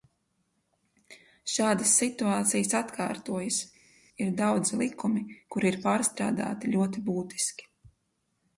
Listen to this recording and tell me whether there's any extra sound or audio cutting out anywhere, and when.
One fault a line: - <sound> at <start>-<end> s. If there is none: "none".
none